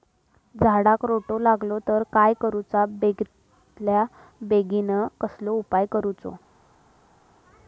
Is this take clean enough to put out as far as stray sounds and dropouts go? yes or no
yes